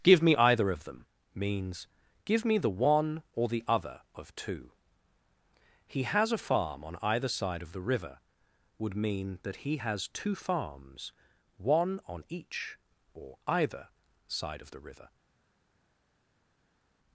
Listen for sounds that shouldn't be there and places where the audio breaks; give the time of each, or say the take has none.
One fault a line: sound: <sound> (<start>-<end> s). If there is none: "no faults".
no faults